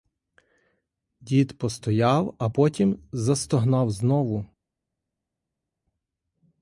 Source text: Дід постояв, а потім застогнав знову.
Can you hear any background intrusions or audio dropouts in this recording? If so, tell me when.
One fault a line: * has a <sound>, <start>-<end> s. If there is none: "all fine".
all fine